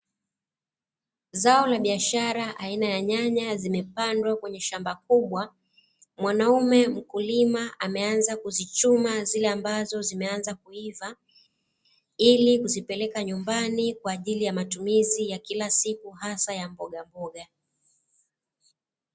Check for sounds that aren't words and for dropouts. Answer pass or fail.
pass